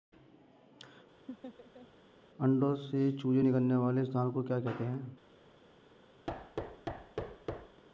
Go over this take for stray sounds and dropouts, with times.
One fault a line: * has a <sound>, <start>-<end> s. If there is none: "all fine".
* has a laugh, 1.3-1.9 s
* has a thud, 6.3-7.8 s